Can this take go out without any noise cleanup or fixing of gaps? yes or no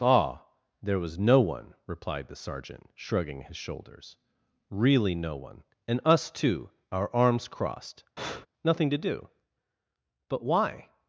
no